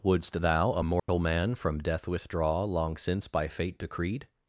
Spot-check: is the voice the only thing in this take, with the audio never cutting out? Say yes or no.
no